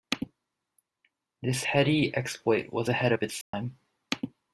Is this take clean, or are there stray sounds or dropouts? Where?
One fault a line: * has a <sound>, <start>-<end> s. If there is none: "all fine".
* has a dropout, 3.4-3.5 s